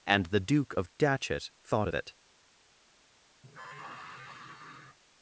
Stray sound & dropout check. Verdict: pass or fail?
fail